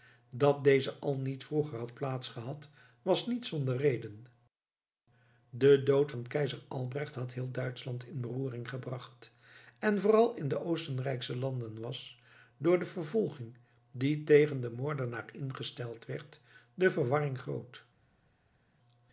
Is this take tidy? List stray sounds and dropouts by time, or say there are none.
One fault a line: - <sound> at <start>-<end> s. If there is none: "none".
none